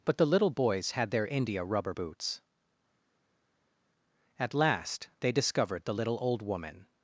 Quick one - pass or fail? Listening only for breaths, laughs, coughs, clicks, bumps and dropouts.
pass